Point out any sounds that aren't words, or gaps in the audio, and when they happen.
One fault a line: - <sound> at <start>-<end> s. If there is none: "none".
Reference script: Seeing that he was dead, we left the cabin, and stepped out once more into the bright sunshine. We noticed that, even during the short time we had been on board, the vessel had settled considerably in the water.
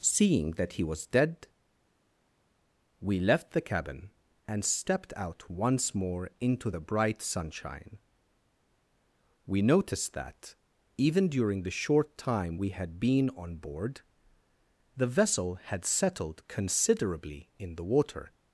none